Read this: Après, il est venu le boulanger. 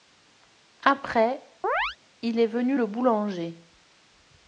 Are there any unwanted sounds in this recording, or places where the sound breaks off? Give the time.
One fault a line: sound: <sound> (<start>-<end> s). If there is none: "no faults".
sound: chirp (1.6-2.0 s)